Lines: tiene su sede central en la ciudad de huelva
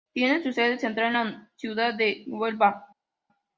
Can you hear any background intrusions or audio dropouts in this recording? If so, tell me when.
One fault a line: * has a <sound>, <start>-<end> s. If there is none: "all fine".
all fine